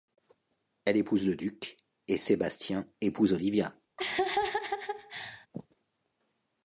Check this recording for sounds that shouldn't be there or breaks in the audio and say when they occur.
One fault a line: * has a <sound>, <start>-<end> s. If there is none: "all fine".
* has a laugh, 4.0-5.5 s